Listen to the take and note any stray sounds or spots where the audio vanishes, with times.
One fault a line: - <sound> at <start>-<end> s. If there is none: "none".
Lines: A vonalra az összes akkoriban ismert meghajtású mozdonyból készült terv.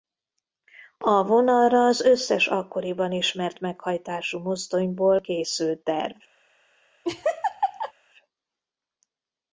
- laugh at 7.0-7.9 s